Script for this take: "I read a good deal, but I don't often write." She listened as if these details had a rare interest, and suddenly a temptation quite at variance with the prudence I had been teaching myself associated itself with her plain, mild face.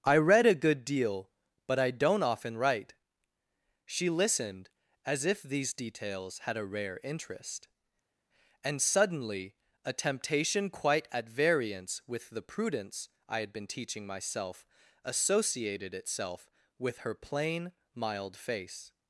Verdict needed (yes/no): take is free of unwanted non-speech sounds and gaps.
yes